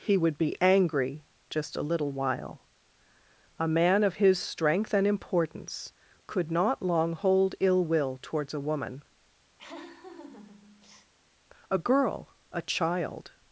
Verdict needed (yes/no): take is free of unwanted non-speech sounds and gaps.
no